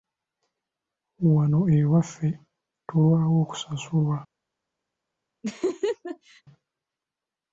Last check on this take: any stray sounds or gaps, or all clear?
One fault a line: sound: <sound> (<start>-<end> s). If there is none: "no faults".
sound: laugh (5.4-6.4 s)